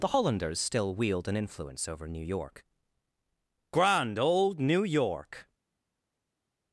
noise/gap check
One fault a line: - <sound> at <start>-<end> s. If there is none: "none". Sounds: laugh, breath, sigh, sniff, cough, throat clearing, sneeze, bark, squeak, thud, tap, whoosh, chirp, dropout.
none